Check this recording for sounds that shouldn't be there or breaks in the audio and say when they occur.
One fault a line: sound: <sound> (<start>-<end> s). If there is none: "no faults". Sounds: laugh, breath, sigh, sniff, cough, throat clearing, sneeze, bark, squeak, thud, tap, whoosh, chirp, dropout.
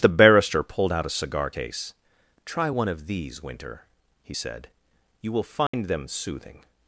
sound: dropout (5.7-5.7 s)